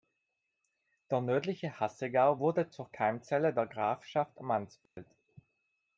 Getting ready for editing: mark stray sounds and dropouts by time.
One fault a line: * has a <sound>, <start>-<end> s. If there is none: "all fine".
* has a dropout, 4.9-5.0 s